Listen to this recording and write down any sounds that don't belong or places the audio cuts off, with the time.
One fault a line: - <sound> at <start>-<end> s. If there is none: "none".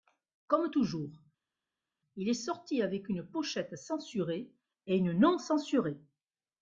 none